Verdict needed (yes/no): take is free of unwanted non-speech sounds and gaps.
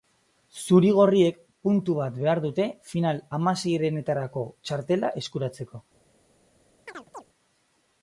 no